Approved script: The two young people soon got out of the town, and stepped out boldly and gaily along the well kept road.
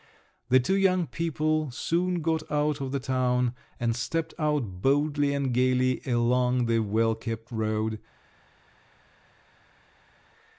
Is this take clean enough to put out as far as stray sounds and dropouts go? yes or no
yes